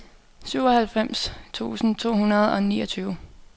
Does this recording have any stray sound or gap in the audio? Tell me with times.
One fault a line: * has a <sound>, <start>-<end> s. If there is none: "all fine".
all fine